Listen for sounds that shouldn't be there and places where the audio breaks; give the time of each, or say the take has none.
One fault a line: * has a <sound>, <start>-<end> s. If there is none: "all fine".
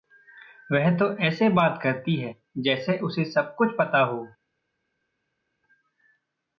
all fine